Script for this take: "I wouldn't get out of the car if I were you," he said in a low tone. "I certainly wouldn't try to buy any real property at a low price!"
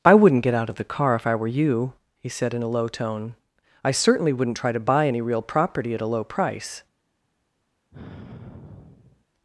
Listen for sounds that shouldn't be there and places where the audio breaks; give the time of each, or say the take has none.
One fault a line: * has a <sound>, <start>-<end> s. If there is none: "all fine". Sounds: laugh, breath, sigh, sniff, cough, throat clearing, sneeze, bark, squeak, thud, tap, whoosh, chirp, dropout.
* has a sigh, 7.9-9.2 s